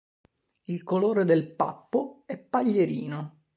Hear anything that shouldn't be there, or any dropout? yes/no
no